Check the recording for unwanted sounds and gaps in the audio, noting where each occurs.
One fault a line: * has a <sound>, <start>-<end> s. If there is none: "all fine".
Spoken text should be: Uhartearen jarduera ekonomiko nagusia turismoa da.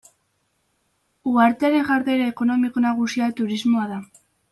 all fine